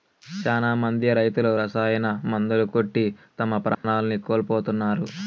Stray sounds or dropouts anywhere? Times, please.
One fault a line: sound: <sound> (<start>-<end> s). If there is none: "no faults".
sound: dropout (3.7-3.8 s)